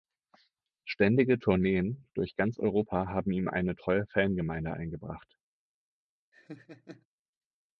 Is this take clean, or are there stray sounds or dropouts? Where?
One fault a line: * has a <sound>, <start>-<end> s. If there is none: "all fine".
* has a laugh, 6.3-7.1 s